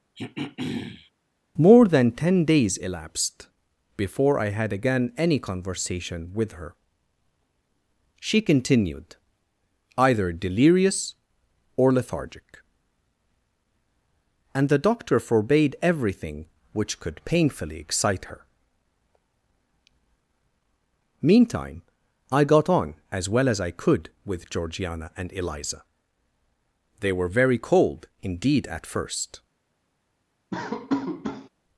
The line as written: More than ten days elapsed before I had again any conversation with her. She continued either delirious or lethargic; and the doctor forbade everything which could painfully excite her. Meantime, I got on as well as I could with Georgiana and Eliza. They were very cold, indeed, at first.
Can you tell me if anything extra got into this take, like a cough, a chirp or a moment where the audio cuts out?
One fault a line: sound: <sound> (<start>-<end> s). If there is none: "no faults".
sound: throat clearing (0.2-1.1 s)
sound: laugh (30.5-31.5 s)